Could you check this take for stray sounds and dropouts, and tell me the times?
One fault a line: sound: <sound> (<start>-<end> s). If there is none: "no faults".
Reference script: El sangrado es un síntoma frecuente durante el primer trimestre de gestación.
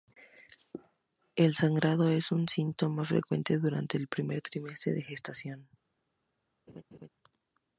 sound: laugh (6.7-7.1 s)